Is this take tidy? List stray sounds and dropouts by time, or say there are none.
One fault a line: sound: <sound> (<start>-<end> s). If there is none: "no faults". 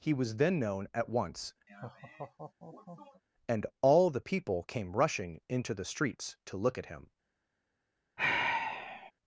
sound: laugh (1.7-3.2 s)
sound: sigh (8.2-9.1 s)